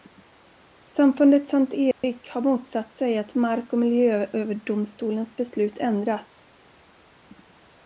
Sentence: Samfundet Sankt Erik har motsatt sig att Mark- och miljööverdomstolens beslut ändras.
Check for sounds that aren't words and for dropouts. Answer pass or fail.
fail